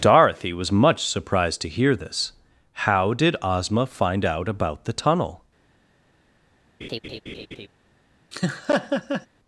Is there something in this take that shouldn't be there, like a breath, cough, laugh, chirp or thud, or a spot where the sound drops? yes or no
yes